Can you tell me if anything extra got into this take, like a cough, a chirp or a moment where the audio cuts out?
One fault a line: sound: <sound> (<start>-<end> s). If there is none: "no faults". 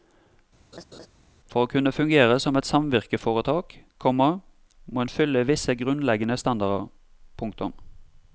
sound: laugh (0.7-1.1 s)